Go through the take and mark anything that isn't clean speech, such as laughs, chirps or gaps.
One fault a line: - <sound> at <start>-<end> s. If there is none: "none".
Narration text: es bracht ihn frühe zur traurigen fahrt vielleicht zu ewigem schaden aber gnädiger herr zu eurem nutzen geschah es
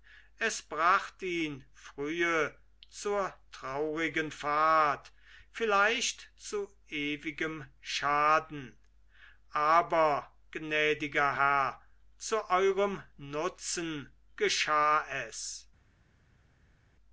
none